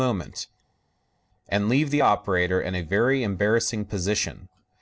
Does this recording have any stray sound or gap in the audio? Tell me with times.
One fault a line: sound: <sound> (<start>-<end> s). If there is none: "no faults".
no faults